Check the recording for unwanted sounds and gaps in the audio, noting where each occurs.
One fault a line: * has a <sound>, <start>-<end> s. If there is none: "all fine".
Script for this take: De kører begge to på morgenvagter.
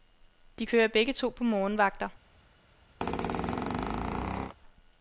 * has a squeak, 3.0-4.5 s